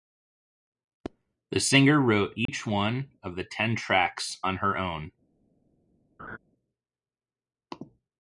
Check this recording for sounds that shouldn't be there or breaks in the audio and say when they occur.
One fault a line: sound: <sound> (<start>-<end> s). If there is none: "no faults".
sound: dropout (2.5-2.5 s)
sound: laugh (6.2-6.4 s)